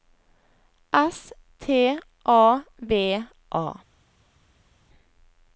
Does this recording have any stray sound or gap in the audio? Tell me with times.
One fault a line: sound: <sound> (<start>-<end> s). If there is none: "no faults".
no faults